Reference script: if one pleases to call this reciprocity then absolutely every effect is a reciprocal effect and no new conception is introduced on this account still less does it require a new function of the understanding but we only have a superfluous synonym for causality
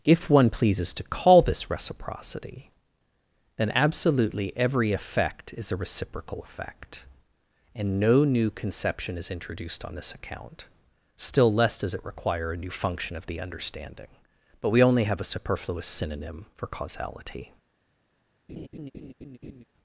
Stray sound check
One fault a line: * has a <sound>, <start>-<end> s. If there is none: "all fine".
* has a laugh, 18.5-19.6 s